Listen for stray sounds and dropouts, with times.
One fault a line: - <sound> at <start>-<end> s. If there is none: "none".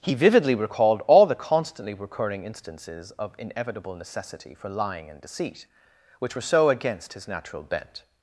none